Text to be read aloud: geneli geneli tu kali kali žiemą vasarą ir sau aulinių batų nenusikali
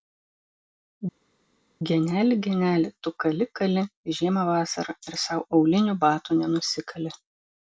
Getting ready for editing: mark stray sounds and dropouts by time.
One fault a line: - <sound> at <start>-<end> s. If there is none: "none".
none